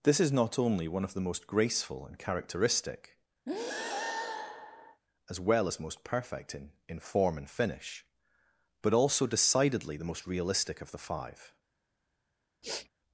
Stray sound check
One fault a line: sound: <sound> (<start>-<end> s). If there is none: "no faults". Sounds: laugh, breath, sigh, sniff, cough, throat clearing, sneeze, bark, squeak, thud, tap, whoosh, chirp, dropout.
sound: breath (3.5-5.0 s)
sound: sniff (12.6-12.9 s)